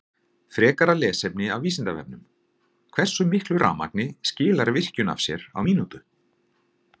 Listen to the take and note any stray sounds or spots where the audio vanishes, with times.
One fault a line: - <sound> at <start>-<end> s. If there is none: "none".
none